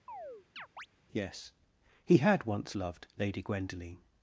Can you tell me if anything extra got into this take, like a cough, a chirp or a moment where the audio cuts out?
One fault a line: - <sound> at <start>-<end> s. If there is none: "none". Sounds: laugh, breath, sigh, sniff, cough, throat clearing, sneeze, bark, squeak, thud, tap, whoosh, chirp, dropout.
- chirp at 0.1-0.9 s